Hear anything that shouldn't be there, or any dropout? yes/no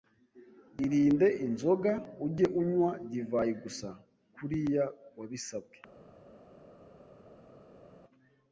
no